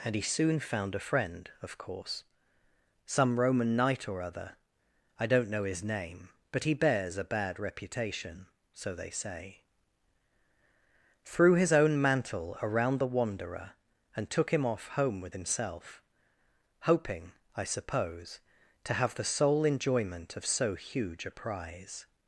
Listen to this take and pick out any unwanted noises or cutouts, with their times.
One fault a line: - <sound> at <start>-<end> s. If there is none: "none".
none